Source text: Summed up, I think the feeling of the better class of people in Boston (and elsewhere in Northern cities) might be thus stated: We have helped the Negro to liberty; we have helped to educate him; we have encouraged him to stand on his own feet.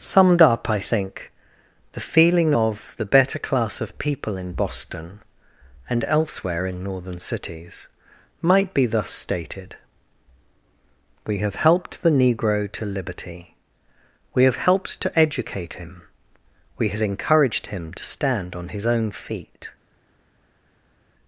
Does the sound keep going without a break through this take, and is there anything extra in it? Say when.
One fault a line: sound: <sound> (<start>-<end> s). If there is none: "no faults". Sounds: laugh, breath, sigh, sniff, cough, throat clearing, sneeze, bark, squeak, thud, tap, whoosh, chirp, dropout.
no faults